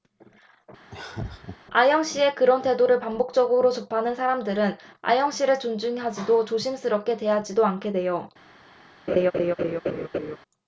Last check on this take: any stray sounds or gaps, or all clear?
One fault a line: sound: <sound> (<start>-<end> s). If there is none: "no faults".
sound: laugh (0.9-1.6 s)
sound: laugh (9.1-10.4 s)